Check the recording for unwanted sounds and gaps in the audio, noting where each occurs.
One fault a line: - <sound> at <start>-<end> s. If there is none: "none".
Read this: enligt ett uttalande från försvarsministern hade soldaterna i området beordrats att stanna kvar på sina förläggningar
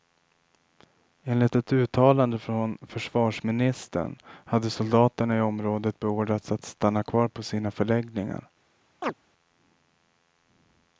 - chirp at 9.0-9.1 s